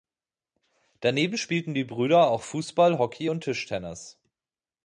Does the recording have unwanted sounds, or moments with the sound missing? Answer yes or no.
no